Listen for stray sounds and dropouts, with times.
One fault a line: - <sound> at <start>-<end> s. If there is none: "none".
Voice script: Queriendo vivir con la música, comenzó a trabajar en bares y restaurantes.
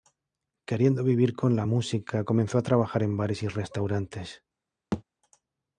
- thud at 4.9-5.0 s